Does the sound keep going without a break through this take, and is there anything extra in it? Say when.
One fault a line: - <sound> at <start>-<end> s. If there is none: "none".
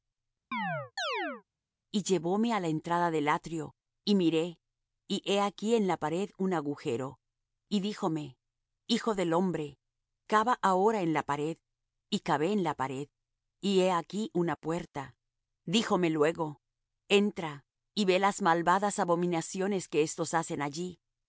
- chirp at 0.5-1.4 s